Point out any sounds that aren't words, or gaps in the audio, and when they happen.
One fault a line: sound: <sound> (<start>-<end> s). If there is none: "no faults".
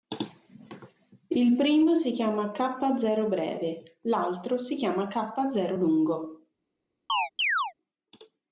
sound: chirp (7.1-7.7 s)